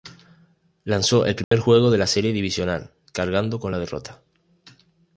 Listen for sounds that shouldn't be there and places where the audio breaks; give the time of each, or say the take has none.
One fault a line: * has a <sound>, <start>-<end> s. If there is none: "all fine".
* has a dropout, 1.4-1.5 s